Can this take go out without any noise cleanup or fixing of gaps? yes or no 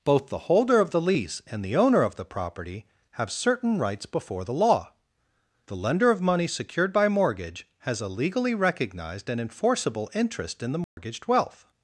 no